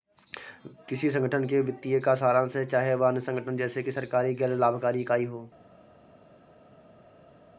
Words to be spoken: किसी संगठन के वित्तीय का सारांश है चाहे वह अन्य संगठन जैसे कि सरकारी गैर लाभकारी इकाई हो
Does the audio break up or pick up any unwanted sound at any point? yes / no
no